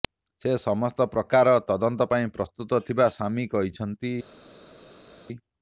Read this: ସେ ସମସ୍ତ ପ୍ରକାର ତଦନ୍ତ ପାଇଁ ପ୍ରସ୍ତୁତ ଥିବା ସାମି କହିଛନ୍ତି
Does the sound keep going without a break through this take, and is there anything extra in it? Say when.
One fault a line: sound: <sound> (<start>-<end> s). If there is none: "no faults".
no faults